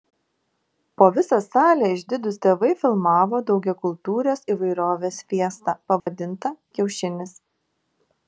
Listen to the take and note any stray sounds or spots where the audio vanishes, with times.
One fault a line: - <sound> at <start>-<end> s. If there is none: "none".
- dropout at 6.0-6.1 s